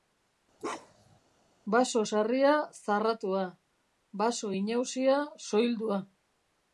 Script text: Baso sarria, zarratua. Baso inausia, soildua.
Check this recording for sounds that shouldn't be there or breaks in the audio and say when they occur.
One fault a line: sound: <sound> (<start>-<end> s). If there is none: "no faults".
sound: bark (0.6-1.2 s)